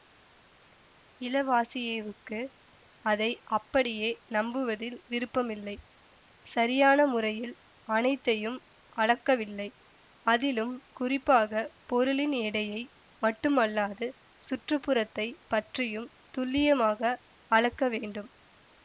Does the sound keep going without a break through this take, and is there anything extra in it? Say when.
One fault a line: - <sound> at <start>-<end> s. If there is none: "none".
none